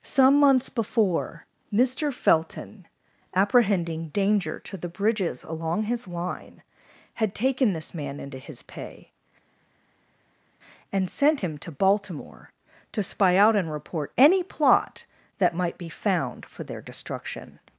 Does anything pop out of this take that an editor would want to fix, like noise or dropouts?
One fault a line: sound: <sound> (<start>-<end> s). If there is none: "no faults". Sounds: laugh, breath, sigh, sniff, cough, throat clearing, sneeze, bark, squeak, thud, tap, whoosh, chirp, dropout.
no faults